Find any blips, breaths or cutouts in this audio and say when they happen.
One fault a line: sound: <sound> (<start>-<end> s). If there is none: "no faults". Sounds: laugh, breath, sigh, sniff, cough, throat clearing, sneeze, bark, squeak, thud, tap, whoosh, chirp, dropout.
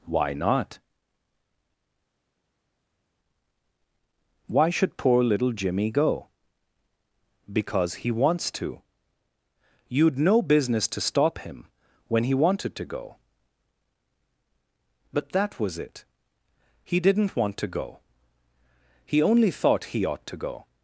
no faults